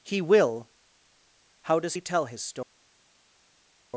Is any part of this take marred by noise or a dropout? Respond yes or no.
no